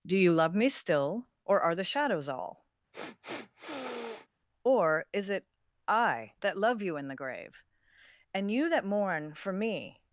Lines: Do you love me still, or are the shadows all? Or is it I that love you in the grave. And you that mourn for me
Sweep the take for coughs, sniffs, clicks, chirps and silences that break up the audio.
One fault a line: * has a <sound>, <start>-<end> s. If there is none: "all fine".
* has a sniff, 2.9-4.3 s